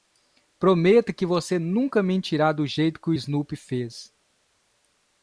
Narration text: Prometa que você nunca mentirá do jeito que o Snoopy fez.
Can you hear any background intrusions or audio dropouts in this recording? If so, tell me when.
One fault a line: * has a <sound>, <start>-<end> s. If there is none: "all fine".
all fine